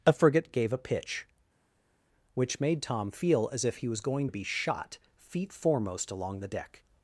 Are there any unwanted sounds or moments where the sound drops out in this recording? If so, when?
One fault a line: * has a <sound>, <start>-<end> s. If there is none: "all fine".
all fine